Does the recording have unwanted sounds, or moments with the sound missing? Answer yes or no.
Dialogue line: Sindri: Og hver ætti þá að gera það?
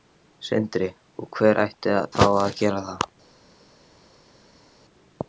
no